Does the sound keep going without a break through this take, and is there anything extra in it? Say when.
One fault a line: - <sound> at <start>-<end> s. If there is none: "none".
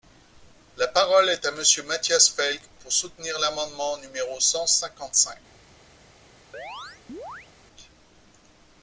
- chirp at 6.5-7.5 s